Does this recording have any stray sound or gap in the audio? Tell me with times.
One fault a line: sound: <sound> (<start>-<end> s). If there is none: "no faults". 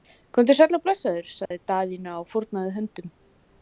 sound: dropout (1.5-1.5 s)